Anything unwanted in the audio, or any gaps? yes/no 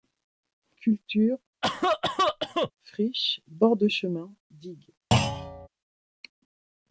yes